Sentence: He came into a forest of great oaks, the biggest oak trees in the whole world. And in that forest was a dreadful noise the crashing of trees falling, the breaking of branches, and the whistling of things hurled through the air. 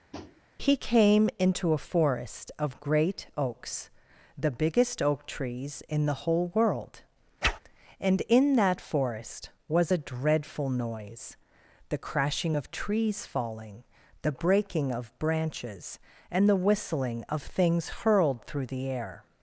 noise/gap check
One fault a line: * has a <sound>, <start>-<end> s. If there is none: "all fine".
* has a tap, 0.1-0.4 s
* has a whoosh, 7.4-7.6 s